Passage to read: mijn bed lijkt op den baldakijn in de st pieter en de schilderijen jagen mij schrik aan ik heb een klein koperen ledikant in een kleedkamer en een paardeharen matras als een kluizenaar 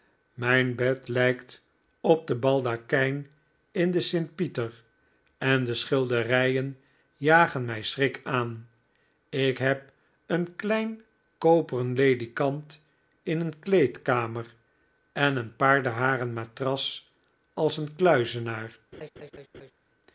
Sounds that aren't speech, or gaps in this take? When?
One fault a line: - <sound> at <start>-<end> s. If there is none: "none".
- laugh at 18.9-19.7 s